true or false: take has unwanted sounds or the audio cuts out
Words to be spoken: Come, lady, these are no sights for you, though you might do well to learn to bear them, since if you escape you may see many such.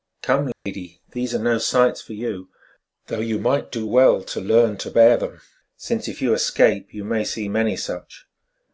true